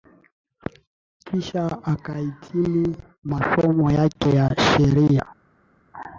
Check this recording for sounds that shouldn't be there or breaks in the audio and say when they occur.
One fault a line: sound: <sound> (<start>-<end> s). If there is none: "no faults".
no faults